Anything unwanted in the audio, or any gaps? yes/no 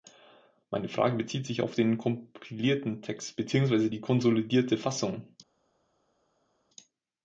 no